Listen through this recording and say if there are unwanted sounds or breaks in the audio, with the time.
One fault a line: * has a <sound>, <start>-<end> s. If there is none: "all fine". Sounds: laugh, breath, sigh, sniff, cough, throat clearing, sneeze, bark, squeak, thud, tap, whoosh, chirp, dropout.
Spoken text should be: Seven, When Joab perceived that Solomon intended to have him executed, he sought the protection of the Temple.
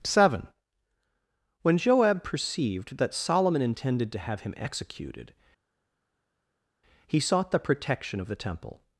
all fine